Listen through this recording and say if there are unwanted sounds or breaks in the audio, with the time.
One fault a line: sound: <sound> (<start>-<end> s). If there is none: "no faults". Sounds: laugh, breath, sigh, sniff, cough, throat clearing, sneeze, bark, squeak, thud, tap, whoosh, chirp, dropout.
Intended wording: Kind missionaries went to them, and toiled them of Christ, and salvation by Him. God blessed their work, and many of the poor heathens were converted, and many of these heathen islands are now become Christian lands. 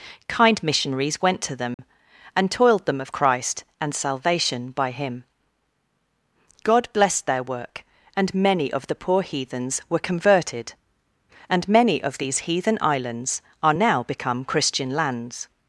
sound: dropout (1.7-1.8 s)